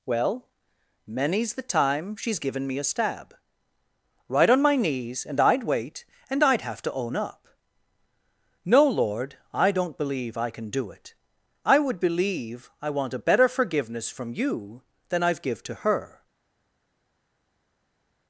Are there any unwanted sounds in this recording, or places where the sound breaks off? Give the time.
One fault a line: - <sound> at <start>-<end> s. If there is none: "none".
none